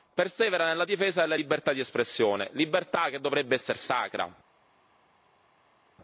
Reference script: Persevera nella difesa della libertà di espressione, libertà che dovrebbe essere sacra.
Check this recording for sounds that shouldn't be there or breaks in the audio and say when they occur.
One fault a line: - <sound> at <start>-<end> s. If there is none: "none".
none